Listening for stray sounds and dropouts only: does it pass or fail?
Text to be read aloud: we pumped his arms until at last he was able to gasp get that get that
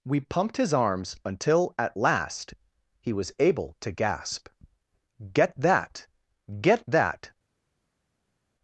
pass